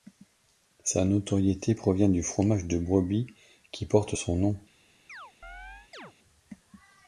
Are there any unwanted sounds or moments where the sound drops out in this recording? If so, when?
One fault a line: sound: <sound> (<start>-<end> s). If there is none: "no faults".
sound: chirp (5.1-6.1 s)